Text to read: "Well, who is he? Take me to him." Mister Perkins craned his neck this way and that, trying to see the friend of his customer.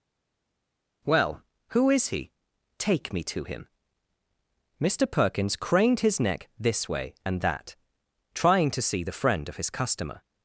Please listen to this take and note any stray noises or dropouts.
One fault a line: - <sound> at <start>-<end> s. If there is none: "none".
none